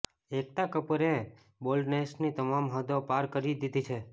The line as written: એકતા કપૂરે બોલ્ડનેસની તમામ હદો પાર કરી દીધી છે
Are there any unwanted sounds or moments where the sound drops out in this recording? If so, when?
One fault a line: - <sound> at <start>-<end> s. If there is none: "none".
none